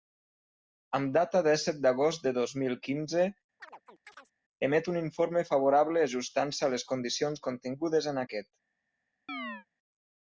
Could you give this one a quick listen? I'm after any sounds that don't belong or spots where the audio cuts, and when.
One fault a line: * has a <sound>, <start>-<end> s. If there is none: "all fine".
* has a chirp, 3.6-4.3 s
* has a chirp, 9.3-9.7 s